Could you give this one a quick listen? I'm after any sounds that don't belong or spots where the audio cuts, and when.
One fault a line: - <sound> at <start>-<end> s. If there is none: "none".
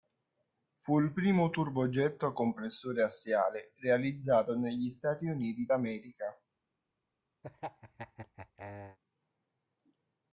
- laugh at 7.4-9.0 s